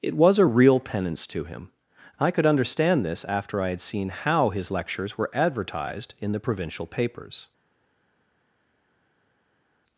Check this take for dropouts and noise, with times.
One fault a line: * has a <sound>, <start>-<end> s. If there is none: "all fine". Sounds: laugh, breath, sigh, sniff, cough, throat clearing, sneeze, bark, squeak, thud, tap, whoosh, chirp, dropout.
all fine